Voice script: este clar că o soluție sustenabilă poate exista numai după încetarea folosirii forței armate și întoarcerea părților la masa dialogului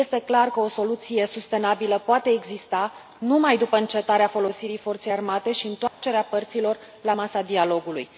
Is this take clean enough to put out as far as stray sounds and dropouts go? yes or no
no